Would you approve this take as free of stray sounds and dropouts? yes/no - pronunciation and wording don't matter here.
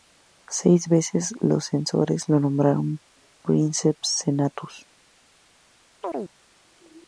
no